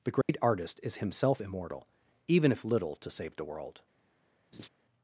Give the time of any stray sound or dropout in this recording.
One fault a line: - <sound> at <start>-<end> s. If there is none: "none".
- dropout at 0.2-0.3 s
- laugh at 4.5-4.7 s